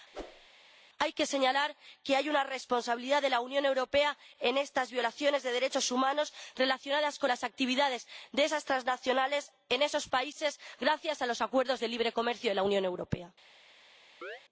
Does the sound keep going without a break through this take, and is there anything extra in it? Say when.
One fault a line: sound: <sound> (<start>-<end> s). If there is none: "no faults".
sound: whoosh (0.1-0.5 s)
sound: chirp (14.2-14.4 s)